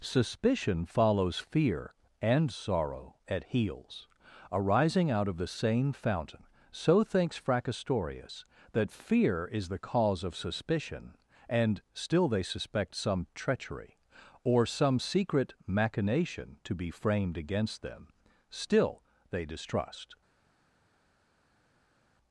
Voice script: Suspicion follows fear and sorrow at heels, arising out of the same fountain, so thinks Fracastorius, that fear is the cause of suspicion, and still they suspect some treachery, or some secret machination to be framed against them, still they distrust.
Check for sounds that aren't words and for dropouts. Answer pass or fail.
pass